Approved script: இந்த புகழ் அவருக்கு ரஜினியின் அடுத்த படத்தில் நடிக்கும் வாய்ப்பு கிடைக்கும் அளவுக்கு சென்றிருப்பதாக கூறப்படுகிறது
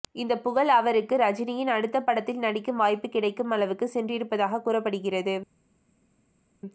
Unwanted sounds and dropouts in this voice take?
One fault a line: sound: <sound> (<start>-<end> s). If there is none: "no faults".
no faults